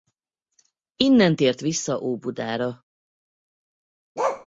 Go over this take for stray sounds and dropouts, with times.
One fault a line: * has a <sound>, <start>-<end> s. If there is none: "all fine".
* has a bark, 4.2-4.5 s